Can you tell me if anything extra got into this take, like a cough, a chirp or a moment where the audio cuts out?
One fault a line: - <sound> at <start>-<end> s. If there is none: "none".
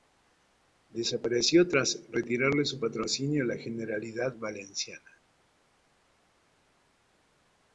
none